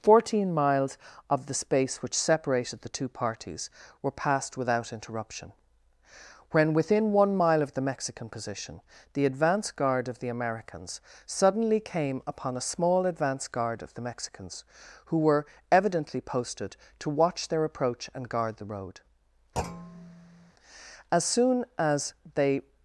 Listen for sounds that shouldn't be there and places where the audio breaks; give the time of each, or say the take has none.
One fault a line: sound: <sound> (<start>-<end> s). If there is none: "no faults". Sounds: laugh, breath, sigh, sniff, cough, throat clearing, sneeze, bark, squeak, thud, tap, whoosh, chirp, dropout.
sound: thud (19.6-20.5 s)